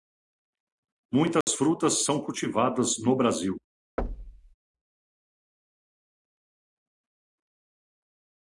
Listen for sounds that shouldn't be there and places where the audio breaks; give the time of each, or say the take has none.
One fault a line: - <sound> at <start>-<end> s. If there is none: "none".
- dropout at 1.4-1.5 s
- thud at 4.0-4.5 s